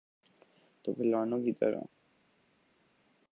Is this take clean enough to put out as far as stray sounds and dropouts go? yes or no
yes